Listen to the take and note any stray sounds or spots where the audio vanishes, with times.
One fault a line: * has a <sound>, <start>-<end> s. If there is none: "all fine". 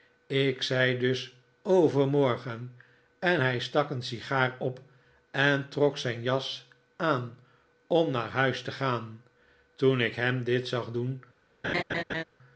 * has a laugh, 11.6-12.2 s